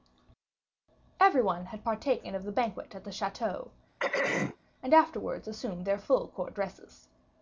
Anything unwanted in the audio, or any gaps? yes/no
yes